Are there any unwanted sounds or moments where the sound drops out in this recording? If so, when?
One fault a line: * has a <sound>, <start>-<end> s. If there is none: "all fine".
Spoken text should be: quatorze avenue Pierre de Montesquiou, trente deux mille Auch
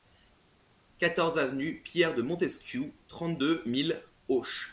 all fine